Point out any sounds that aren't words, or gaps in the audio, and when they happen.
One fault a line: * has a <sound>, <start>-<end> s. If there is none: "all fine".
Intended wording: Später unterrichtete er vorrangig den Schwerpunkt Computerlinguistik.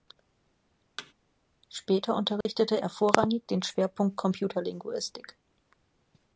* has a thud, 1.0-1.1 s
* has a dropout, 2.4-2.5 s